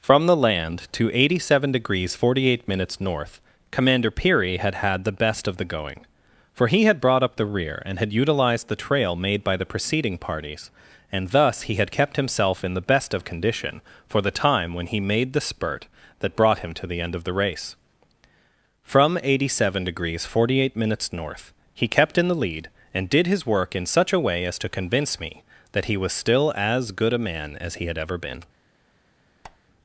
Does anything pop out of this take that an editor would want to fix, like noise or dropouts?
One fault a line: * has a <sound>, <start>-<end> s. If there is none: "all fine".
* has a squeak, 29.4-29.6 s